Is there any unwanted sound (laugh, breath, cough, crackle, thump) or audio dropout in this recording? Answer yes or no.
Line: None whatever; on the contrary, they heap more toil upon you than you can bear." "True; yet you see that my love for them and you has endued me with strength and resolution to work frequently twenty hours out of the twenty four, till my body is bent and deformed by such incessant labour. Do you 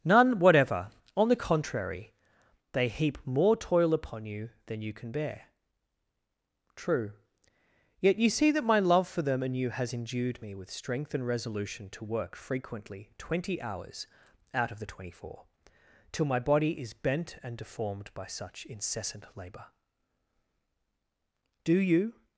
no